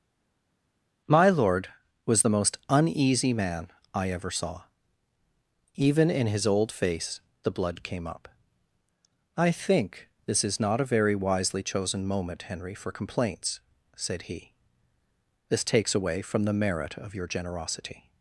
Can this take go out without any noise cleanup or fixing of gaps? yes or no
yes